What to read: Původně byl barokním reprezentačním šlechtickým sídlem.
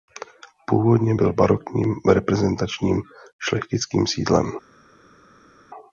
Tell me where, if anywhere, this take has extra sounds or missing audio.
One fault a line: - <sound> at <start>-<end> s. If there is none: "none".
none